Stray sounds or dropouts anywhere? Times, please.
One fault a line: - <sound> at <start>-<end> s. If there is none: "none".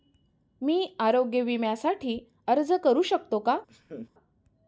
- laugh at 3.7-4.1 s